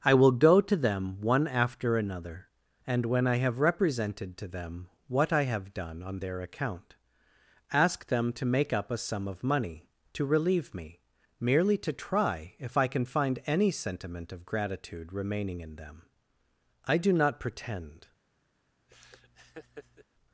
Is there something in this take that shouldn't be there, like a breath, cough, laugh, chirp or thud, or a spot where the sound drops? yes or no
yes